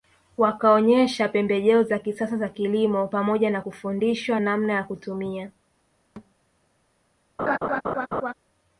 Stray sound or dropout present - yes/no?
yes